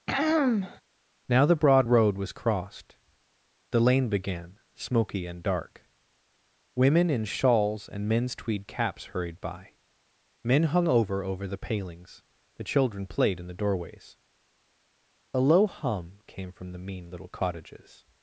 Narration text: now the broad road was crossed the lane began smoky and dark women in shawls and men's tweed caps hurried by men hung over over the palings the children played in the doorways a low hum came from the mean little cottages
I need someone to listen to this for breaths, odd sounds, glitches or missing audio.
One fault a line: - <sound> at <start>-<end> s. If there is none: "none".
- throat clearing at 0.1-0.8 s